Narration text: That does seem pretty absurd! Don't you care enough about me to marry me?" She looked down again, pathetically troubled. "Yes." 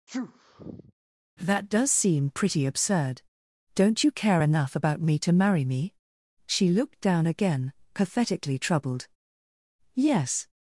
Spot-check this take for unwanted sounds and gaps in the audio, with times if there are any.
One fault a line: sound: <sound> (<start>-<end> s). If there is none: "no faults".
sound: sneeze (0.1-0.9 s)